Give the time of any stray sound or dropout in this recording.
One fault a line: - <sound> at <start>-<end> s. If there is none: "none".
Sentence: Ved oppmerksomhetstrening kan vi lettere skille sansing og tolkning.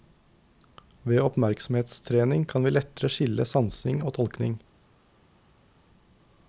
none